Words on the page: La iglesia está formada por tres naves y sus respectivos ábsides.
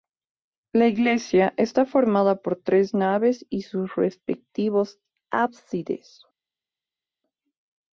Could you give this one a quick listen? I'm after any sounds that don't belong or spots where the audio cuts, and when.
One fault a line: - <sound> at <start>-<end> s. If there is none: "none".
none